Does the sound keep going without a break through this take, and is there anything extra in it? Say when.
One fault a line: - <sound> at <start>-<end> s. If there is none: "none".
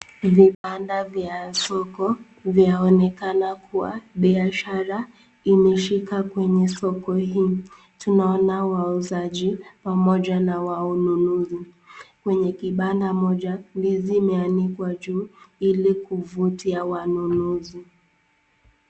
- dropout at 0.5-0.6 s